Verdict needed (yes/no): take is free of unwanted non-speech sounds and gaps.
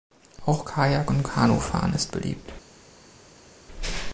yes